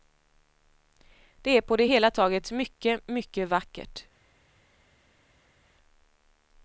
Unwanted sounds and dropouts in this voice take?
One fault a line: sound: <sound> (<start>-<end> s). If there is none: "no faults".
no faults